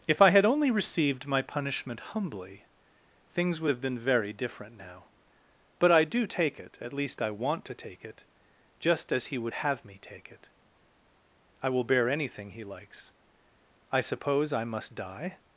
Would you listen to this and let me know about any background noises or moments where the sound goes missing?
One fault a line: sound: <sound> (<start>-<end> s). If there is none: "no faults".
no faults